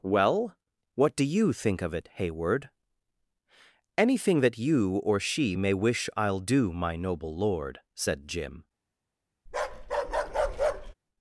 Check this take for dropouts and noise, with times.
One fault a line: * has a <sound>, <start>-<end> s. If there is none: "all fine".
* has a bark, 9.5-10.9 s